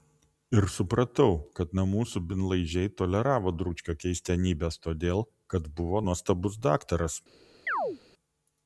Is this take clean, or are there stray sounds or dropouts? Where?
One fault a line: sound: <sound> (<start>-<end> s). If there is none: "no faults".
sound: chirp (7.7-8.0 s)